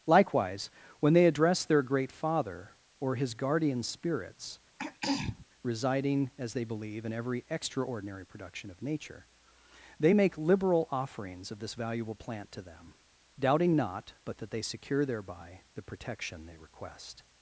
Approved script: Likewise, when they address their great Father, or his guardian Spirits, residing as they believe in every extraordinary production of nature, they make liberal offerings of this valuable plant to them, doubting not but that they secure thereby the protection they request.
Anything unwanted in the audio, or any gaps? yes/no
yes